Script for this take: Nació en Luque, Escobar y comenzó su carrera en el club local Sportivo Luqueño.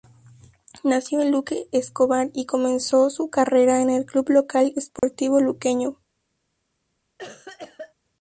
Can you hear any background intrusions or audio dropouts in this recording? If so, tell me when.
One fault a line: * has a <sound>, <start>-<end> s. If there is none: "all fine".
* has a dropout, 5.0-5.0 s
* has a cough, 7.2-7.9 s